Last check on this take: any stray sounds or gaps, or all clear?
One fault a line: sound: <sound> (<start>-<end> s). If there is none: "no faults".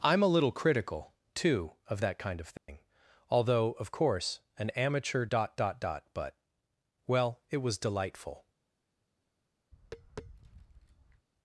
sound: dropout (2.6-2.7 s)
sound: tap (9.7-11.3 s)